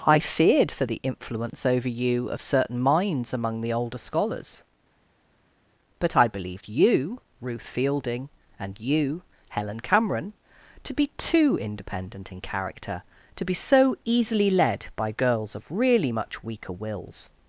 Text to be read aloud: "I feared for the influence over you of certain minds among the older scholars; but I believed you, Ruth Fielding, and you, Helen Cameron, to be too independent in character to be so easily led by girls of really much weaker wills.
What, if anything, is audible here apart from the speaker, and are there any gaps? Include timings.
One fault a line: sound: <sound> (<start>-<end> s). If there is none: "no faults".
no faults